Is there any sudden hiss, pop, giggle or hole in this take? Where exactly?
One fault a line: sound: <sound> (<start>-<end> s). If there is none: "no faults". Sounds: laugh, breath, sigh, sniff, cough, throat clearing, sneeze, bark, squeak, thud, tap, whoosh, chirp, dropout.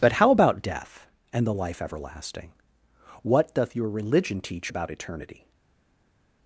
no faults